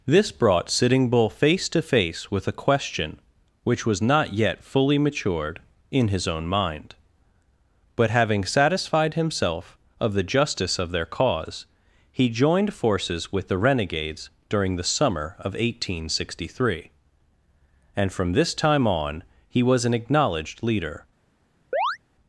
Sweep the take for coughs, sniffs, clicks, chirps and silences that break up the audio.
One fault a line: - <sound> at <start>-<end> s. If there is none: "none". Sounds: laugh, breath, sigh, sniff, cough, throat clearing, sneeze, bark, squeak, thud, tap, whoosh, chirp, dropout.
- chirp at 21.7-22.0 s